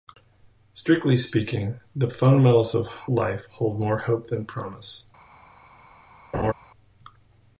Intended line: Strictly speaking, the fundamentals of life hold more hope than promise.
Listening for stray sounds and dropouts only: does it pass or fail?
fail